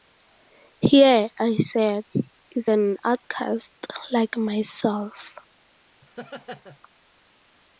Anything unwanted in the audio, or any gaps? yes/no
yes